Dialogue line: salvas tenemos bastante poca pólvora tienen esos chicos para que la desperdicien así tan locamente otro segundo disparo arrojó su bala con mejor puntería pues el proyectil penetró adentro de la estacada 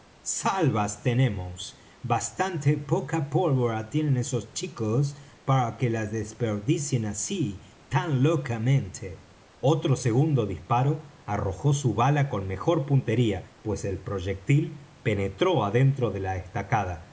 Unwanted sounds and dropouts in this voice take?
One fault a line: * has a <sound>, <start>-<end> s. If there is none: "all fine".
all fine